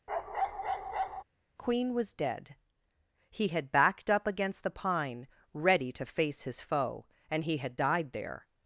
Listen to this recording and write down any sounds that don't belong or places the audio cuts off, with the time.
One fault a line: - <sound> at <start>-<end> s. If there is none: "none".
- bark at 0.1-1.2 s